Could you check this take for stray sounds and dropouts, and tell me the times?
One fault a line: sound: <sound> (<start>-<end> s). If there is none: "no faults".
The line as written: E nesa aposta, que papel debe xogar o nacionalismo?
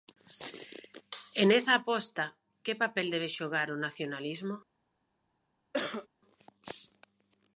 sound: cough (5.7-6.1 s)